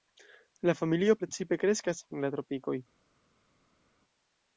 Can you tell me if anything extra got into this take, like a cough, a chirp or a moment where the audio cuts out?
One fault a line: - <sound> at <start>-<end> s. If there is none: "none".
none